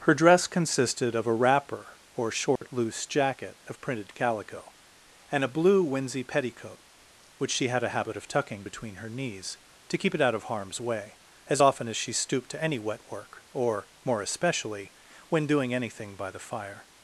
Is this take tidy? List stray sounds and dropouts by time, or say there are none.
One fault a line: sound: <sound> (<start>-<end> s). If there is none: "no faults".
sound: dropout (2.6-2.6 s)